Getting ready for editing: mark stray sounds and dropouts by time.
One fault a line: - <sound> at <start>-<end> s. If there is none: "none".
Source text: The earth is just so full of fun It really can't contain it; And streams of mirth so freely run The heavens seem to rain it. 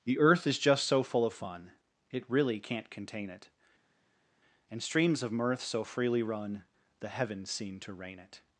none